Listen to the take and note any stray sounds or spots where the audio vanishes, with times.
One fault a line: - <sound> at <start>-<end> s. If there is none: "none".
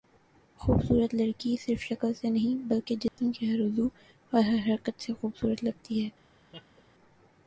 - dropout at 3.1-3.2 s
- laugh at 6.5-6.8 s